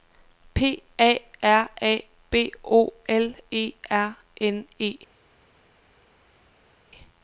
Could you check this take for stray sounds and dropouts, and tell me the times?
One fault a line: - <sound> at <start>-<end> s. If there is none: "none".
none